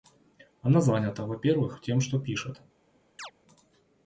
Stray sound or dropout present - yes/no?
yes